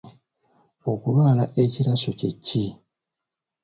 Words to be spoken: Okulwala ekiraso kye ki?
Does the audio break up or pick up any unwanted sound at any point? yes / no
no